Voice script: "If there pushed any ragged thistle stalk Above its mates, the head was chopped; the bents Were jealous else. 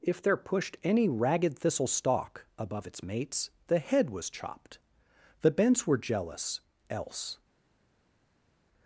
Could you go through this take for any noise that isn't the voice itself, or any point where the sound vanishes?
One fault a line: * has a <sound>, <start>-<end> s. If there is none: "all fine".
all fine